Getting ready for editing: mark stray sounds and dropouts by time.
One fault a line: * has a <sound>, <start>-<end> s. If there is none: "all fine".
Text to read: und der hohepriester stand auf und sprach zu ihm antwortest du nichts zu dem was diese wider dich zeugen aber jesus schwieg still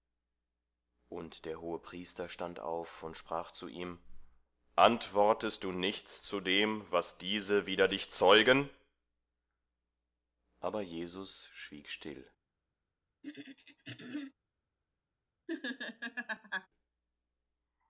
* has a throat clearing, 13.2-14.3 s
* has a laugh, 15.5-16.7 s